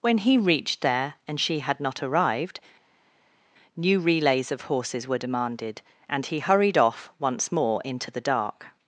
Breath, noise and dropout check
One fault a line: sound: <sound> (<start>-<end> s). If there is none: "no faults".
no faults